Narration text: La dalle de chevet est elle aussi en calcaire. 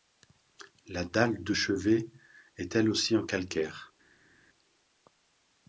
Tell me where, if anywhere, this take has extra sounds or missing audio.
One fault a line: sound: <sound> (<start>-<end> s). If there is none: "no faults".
no faults